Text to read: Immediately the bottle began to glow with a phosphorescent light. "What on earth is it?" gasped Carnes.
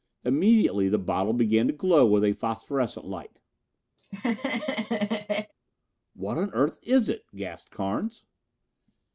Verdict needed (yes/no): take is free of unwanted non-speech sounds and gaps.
no